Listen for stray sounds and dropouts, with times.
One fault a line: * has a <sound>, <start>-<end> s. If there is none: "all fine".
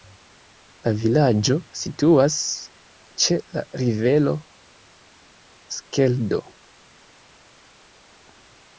all fine